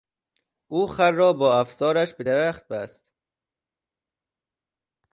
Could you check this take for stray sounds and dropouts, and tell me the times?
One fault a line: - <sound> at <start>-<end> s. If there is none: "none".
none